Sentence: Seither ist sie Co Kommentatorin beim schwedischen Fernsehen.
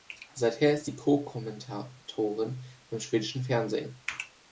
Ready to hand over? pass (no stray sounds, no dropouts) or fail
pass